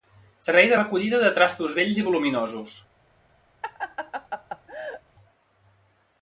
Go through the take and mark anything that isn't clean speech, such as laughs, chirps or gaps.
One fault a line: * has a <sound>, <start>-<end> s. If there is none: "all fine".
* has a laugh, 3.6-5.0 s